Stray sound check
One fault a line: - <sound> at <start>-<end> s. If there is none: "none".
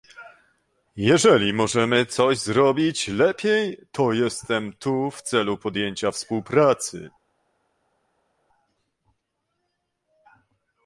none